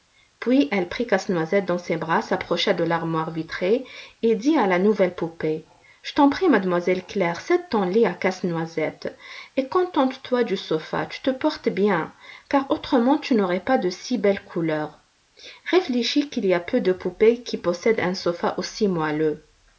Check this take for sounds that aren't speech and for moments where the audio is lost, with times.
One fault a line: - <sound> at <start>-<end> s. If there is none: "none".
none